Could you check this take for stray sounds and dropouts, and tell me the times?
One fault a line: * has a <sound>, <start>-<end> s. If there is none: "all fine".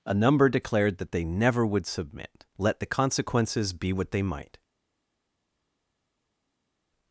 all fine